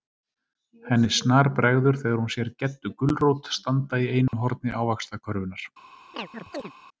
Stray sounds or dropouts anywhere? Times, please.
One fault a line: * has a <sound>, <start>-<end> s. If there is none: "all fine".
* has a dropout, 4.3-4.3 s
* has a chirp, 6.1-6.7 s